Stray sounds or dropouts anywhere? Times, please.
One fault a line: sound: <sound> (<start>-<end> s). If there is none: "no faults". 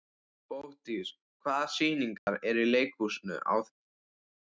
sound: dropout (2.2-2.3 s)